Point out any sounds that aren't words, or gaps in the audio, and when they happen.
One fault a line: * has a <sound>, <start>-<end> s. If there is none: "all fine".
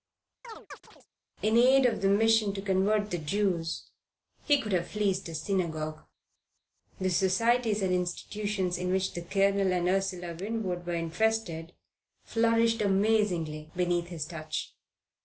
* has a chirp, 0.4-1.1 s